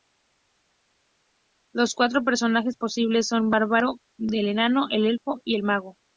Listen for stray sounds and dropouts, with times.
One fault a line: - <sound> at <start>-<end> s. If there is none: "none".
none